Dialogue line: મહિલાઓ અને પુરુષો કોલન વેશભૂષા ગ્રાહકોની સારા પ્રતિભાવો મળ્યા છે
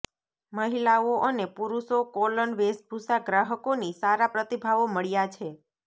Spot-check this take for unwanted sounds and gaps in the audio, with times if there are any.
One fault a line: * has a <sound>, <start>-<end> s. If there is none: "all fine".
all fine